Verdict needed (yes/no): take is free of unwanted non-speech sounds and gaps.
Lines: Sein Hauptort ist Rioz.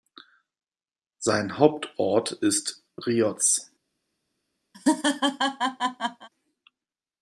no